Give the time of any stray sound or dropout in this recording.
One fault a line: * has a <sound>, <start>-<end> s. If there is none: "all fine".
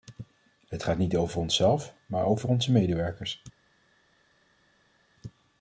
all fine